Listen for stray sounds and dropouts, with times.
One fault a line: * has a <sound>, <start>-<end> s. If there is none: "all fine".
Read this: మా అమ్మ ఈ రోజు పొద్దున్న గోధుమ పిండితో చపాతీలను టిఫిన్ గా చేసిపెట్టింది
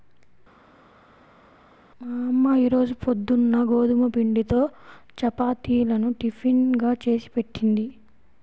all fine